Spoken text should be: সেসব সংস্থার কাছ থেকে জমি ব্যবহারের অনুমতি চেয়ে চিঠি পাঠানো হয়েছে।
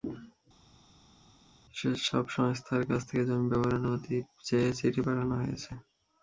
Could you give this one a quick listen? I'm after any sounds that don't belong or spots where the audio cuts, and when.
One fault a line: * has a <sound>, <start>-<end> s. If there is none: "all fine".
all fine